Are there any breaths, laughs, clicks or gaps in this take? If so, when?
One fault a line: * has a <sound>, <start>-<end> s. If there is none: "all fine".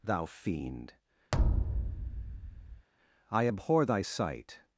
* has a thud, 1.3-2.9 s